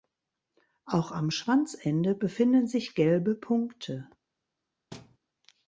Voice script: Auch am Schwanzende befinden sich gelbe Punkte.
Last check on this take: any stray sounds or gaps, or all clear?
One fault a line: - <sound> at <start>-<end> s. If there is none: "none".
- thud at 4.9-5.2 s